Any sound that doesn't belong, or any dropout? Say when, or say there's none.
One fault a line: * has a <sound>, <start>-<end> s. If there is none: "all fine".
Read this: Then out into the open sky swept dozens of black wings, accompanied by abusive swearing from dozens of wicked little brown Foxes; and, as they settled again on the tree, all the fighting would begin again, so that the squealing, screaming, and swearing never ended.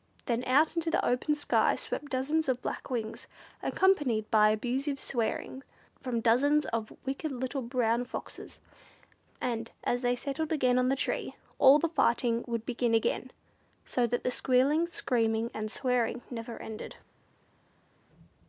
all fine